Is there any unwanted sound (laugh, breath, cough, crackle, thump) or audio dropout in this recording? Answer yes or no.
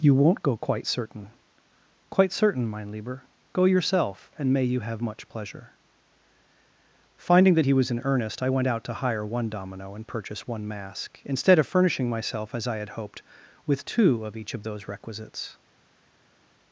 no